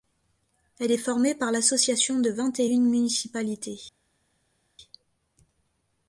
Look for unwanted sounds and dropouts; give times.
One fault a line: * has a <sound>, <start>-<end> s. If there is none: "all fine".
all fine